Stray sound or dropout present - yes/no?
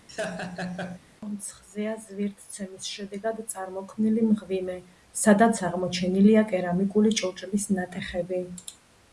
yes